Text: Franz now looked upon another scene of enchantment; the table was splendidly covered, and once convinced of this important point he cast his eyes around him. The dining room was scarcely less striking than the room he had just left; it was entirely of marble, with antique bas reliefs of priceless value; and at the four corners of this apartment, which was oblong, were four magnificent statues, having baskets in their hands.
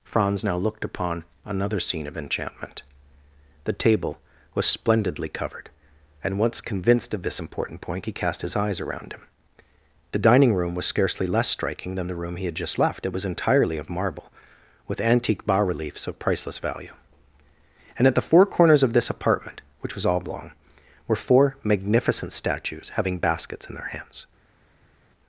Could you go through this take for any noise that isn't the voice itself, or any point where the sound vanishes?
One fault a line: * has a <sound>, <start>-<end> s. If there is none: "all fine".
all fine